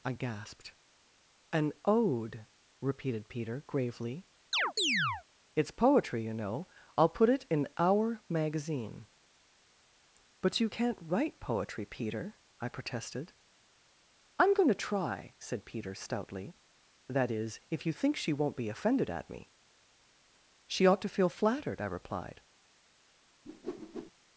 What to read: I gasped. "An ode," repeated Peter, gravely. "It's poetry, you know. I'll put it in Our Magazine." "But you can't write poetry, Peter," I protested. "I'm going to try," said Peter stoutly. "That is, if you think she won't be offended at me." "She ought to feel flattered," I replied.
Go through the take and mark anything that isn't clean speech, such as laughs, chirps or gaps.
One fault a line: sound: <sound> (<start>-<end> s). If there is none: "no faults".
sound: chirp (4.5-5.2 s)
sound: whoosh (23.5-24.1 s)